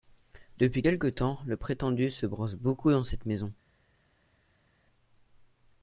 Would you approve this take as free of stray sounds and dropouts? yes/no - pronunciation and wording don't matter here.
yes